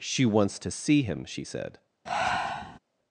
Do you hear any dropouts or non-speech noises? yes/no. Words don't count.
yes